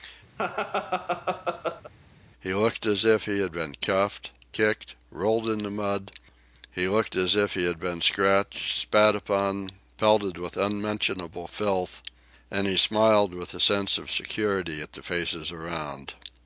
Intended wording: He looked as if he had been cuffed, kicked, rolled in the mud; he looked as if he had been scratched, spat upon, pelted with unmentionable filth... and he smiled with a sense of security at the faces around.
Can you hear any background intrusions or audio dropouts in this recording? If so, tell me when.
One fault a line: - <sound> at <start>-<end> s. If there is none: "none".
- laugh at 0.4-1.9 s